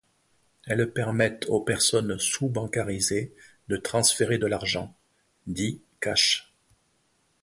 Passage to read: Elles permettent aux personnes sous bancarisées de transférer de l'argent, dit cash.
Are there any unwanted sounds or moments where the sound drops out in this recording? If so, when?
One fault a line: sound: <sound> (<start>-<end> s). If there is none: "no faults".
no faults